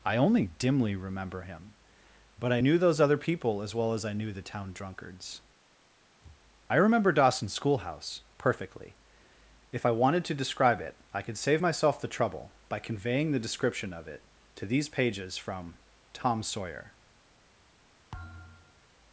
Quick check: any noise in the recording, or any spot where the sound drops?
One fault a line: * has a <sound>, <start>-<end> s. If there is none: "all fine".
* has a thud, 18.1-18.9 s